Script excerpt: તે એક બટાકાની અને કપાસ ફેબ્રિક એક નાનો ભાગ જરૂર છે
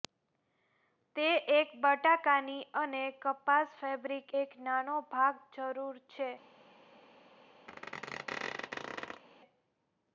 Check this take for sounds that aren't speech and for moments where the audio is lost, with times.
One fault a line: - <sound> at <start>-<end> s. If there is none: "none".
- squeak at 7.7-9.2 s